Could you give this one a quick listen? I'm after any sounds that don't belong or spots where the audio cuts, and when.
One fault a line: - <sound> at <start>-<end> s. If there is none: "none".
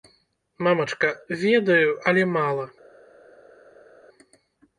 none